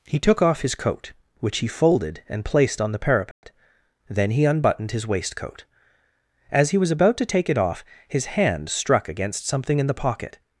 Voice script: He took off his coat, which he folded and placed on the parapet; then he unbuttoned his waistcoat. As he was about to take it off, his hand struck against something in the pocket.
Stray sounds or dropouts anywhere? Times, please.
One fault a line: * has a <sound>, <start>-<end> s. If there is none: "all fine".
* has a dropout, 3.3-3.4 s